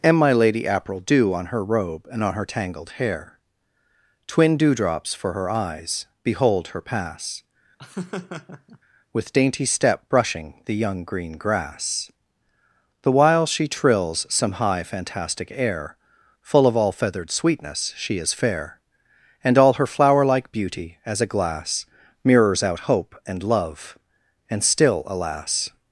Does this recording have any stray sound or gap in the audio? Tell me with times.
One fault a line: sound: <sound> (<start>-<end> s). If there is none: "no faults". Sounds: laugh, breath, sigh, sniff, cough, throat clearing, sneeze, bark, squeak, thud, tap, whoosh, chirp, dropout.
sound: laugh (7.8-8.8 s)